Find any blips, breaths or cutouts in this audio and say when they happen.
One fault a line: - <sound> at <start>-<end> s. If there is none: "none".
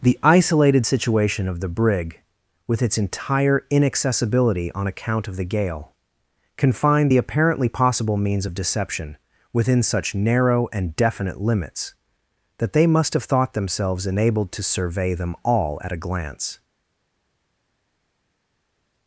none